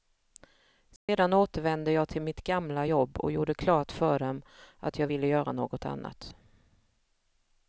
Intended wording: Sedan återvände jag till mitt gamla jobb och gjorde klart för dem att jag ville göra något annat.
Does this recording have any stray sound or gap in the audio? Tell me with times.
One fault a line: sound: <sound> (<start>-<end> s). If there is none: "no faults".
sound: dropout (1.0-1.1 s)